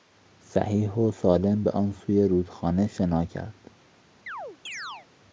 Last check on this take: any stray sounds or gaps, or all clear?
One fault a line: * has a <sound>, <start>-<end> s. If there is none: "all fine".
* has a chirp, 4.3-5.1 s